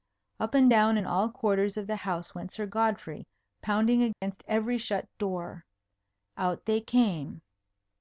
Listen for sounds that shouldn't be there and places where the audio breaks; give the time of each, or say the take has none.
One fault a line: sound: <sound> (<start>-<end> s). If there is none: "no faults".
sound: dropout (4.1-4.2 s)